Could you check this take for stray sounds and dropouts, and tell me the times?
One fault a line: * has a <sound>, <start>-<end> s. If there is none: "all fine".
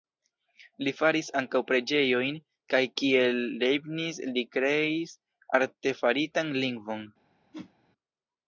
* has a whoosh, 7.5-7.7 s